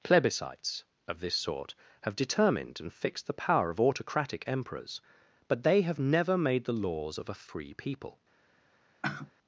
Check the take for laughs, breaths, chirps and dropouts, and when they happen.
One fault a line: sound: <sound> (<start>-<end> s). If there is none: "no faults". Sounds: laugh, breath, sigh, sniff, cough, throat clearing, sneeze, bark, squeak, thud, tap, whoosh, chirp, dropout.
sound: sigh (9.0-9.3 s)